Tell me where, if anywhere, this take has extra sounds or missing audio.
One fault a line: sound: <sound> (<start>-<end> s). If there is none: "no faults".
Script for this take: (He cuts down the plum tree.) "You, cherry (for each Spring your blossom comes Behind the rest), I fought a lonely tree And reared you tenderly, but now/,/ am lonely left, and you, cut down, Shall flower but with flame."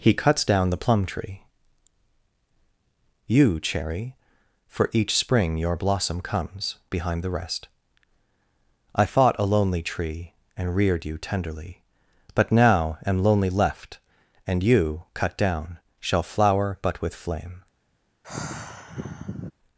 sound: sigh (18.2-19.5 s)